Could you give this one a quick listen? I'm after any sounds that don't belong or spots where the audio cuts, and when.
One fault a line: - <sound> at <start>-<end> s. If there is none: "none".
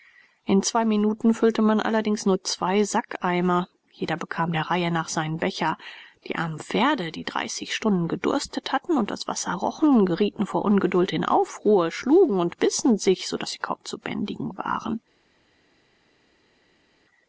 none